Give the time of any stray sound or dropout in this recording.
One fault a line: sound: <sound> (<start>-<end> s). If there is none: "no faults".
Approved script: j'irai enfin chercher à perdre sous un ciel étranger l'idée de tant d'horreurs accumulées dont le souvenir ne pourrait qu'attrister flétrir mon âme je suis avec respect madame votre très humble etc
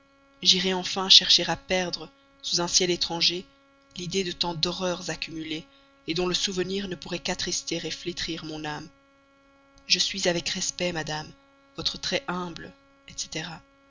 no faults